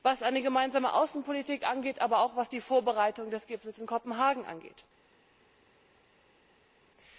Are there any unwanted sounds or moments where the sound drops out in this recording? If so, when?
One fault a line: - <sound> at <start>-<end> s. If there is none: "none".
none